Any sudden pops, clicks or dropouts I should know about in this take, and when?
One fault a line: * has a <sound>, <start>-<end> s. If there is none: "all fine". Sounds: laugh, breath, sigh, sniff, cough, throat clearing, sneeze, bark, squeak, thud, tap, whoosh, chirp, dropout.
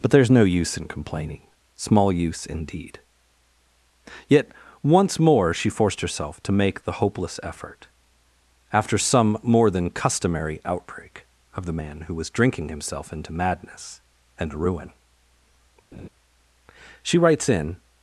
* has a laugh, 15.9-16.1 s